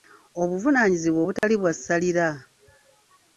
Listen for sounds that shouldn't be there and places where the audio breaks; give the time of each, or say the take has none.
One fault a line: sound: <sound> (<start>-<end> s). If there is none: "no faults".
sound: dropout (1.4-1.4 s)